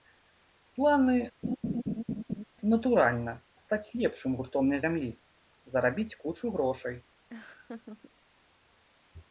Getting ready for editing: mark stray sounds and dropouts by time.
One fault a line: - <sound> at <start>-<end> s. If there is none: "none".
- laugh at 1.4-2.4 s
- laugh at 7.3-8.1 s